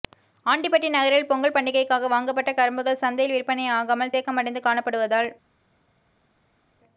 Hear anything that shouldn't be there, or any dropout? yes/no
no